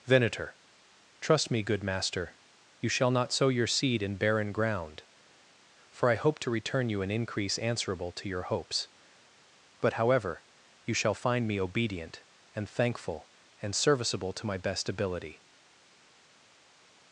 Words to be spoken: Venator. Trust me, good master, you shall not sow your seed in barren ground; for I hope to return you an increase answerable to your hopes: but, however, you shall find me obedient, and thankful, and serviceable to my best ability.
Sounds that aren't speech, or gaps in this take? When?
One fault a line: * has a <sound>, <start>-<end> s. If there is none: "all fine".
all fine